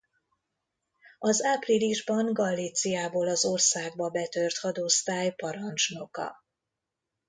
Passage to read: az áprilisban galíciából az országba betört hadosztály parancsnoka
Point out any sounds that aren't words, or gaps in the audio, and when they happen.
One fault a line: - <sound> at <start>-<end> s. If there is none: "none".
none